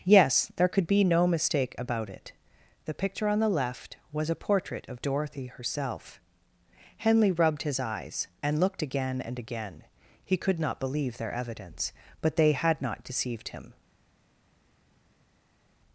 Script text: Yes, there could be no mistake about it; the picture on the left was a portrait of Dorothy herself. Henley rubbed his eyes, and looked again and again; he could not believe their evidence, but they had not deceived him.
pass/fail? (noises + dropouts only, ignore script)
pass